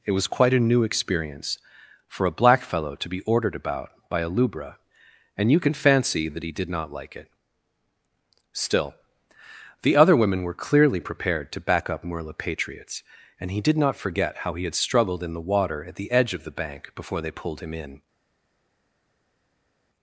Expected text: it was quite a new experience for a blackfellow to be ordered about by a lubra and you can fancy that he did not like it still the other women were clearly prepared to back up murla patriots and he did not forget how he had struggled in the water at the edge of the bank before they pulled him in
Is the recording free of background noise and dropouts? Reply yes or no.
yes